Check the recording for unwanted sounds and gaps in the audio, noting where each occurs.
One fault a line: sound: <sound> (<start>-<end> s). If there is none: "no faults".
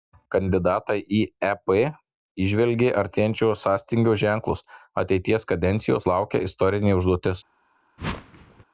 sound: whoosh (8.0-8.6 s)